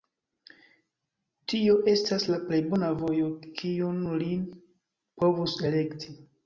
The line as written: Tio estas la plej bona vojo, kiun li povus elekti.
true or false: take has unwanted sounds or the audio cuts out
false